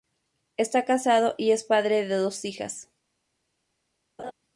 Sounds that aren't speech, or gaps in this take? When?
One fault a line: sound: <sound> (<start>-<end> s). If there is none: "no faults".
sound: laugh (4.2-4.3 s)